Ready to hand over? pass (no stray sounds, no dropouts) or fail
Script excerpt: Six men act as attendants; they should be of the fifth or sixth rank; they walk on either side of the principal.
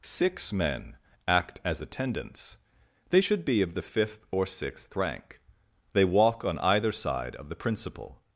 pass